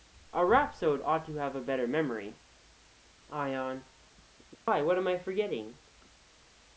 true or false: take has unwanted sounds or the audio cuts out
true